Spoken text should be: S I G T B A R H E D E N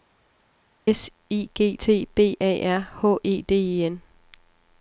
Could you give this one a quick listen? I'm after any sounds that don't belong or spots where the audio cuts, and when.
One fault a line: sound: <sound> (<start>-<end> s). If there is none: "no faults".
no faults